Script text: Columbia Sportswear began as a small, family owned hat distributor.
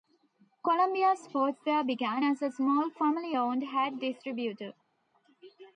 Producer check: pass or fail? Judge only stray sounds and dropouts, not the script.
pass